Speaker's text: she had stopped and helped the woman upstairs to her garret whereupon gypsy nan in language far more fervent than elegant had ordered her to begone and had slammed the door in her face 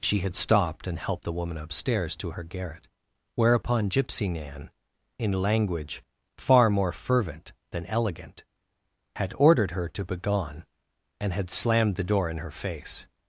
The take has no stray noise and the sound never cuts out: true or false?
true